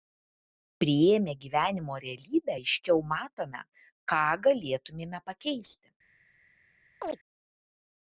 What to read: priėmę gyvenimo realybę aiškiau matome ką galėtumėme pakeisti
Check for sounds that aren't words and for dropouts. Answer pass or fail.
fail